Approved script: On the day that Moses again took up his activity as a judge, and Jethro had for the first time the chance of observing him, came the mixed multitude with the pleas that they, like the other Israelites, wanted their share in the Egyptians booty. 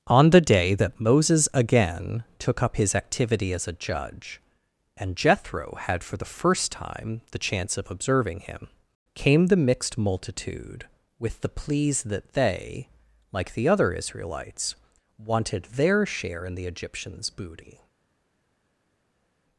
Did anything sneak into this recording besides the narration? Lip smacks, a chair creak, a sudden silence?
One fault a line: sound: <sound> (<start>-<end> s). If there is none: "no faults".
no faults